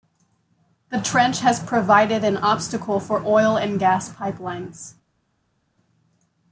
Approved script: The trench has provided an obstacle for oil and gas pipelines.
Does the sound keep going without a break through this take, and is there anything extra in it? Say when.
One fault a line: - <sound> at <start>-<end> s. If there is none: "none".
none